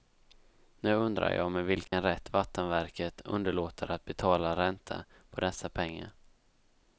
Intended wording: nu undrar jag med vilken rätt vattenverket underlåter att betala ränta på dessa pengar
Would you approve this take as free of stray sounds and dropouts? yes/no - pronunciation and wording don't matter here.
no